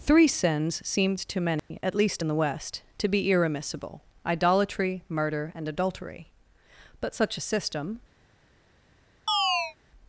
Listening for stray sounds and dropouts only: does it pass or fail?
fail